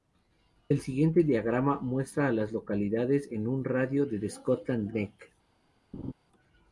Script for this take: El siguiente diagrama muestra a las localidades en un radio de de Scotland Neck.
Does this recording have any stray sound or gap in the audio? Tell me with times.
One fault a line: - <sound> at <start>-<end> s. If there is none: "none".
- laugh at 5.9-6.1 s